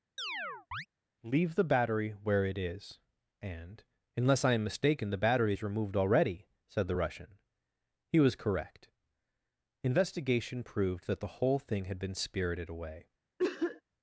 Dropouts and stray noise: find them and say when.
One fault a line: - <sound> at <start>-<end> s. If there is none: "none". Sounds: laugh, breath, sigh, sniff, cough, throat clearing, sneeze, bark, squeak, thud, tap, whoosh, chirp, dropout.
- chirp at 0.2-0.9 s
- cough at 13.4-13.8 s